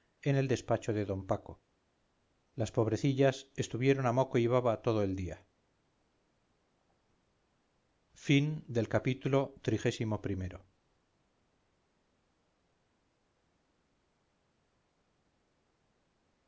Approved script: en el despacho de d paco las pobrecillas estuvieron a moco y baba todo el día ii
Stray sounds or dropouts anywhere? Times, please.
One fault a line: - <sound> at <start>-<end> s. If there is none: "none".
none